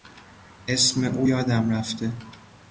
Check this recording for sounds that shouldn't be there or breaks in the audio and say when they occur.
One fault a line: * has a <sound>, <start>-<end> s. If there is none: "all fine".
all fine